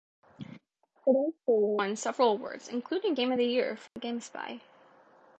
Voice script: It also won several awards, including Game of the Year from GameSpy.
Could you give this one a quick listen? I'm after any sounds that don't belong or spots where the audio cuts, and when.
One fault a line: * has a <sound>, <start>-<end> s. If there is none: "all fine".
* has a dropout, 3.9-4.0 s